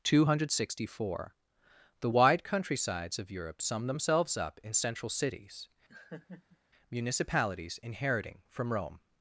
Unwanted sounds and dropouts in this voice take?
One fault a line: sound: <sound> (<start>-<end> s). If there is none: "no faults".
sound: laugh (5.9-6.6 s)